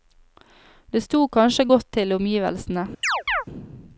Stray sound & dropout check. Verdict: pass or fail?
fail